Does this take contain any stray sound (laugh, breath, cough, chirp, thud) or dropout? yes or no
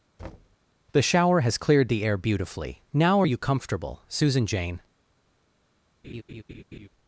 yes